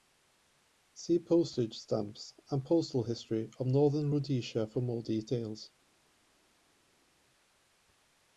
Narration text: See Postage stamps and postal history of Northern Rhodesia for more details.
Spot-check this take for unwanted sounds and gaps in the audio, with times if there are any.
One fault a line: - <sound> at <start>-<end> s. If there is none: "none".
none